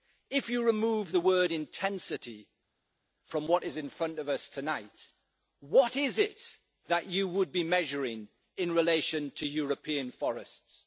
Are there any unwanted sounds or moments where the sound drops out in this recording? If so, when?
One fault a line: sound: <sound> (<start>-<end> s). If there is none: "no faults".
no faults